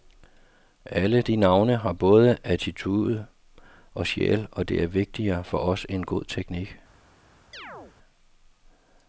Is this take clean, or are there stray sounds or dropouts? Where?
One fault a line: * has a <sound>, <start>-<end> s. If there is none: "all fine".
* has a chirp, 7.5-8.0 s